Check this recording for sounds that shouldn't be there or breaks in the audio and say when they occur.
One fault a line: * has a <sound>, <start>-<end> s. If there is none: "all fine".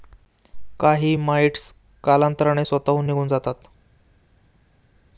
all fine